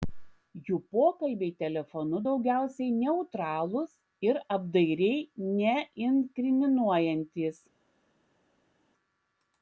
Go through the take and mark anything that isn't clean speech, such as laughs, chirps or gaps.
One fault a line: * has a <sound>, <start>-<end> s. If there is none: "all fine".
all fine